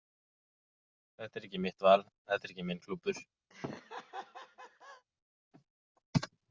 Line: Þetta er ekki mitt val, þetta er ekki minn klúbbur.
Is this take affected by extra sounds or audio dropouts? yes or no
yes